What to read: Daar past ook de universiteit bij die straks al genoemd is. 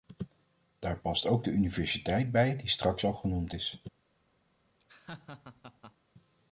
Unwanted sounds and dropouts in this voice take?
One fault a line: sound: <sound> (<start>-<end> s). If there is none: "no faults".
sound: laugh (4.8-5.9 s)